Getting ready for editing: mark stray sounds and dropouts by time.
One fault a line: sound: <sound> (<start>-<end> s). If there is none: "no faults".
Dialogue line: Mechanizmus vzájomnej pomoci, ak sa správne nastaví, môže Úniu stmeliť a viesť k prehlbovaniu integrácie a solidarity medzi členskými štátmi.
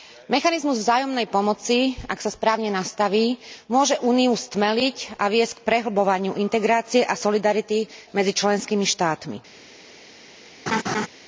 sound: laugh (10.7-11.1 s)